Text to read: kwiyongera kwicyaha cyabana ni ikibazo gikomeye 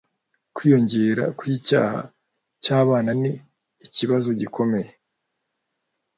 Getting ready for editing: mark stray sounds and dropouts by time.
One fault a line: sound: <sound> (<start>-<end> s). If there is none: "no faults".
no faults